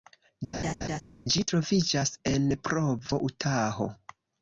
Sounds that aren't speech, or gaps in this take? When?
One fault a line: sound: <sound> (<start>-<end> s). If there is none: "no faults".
sound: laugh (0.5-1.0 s)